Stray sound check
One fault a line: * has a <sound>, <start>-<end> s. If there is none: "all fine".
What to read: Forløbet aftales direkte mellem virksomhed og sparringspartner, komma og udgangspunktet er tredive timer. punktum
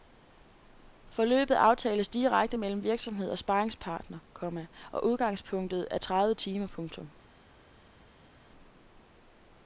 all fine